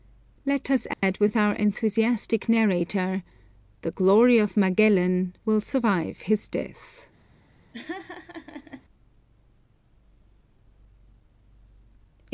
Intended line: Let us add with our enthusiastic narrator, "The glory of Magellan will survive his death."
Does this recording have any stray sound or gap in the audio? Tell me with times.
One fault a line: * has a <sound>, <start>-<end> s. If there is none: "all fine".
* has a dropout, 0.9-1.0 s
* has a laugh, 7.7-8.8 s